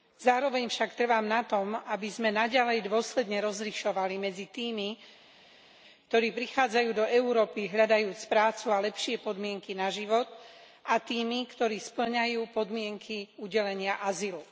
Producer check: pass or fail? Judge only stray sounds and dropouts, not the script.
pass